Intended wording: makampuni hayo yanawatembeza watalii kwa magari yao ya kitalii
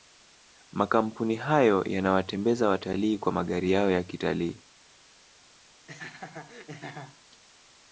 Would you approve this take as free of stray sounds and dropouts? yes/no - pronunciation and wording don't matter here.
no